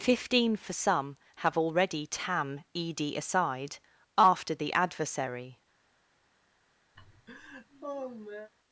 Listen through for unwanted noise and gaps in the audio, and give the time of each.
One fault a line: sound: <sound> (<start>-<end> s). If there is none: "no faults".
sound: laugh (6.9-8.5 s)